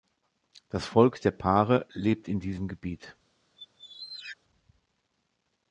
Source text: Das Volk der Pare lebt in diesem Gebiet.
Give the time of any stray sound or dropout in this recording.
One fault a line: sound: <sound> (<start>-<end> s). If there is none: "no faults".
sound: squeak (3.6-4.4 s)